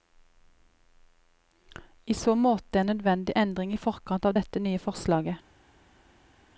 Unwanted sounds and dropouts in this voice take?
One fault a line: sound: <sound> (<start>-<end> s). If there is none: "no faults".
no faults